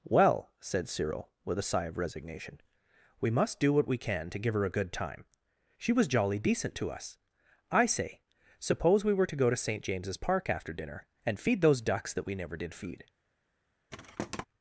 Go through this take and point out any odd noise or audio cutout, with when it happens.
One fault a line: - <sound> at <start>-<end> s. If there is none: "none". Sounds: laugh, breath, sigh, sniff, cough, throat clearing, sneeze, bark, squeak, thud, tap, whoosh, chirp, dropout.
- thud at 13.9-14.5 s